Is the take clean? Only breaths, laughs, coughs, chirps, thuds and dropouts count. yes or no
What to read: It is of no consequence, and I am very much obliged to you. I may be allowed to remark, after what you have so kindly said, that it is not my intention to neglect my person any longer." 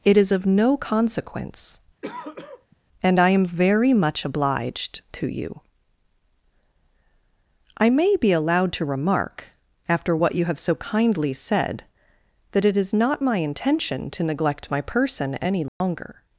no